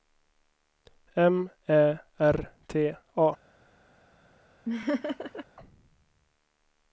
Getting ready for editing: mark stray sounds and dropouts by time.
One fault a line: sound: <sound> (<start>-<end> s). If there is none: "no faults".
sound: laugh (4.7-5.5 s)